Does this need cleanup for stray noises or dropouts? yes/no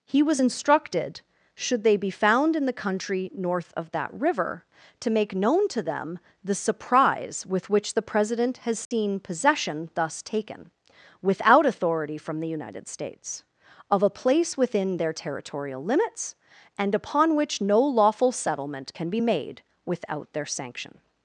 yes